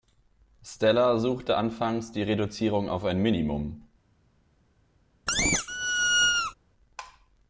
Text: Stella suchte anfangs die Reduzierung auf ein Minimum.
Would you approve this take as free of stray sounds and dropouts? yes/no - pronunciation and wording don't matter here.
no